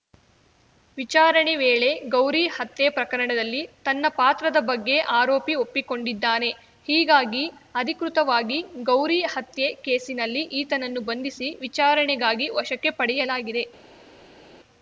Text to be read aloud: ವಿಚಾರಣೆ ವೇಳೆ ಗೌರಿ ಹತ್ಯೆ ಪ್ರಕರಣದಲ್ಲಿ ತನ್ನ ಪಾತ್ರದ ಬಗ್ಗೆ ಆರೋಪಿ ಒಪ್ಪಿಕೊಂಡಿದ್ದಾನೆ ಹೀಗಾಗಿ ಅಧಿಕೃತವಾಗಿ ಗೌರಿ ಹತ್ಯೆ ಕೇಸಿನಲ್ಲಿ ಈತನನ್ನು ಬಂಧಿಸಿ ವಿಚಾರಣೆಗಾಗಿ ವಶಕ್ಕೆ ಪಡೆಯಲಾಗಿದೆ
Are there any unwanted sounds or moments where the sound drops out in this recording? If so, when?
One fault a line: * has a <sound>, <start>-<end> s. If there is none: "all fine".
all fine